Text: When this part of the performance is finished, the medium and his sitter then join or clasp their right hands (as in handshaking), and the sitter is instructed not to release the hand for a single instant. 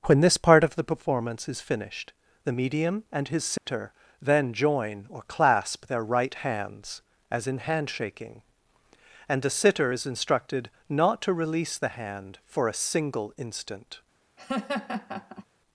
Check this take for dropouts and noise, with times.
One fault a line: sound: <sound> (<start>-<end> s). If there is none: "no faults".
sound: dropout (3.6-3.7 s)
sound: laugh (14.4-15.5 s)